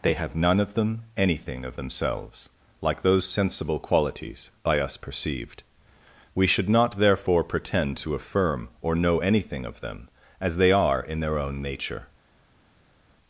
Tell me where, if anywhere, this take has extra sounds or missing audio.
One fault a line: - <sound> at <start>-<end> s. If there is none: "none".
none